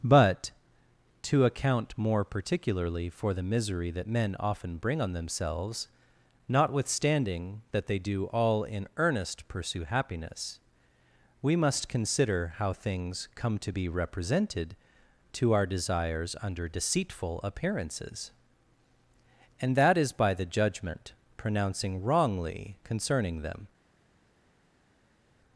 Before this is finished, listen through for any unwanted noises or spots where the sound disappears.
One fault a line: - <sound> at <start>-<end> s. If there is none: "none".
none